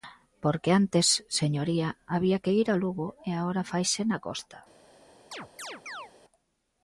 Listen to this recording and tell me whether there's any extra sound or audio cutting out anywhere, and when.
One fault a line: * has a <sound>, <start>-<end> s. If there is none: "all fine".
* has a chirp, 5.3-6.1 s